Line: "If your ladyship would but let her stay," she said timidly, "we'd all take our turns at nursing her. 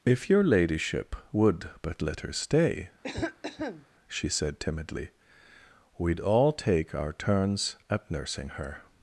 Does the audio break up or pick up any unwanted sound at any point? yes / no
yes